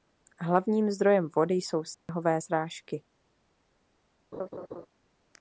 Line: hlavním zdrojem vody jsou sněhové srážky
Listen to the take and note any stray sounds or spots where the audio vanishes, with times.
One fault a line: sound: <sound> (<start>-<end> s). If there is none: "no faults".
sound: dropout (1.9-2.1 s)
sound: laugh (4.3-4.9 s)